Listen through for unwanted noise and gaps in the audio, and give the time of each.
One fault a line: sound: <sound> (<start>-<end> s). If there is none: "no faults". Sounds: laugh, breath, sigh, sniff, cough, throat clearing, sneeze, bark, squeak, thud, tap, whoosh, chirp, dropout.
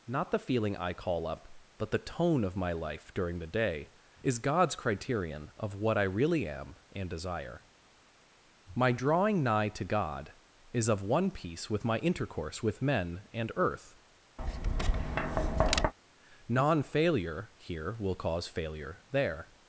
sound: tap (14.4-15.9 s)